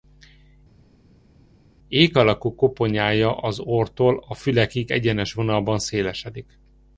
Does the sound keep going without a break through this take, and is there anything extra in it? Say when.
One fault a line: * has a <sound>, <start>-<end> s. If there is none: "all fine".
all fine